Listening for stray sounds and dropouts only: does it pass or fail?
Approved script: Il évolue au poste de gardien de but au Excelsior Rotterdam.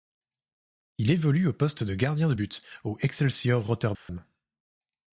fail